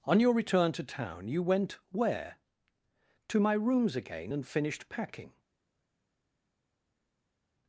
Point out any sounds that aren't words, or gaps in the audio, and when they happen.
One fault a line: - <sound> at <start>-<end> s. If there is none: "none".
none